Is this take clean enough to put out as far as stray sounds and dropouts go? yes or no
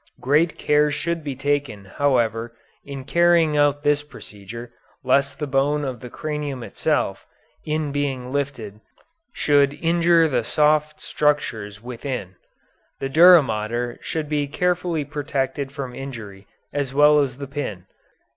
yes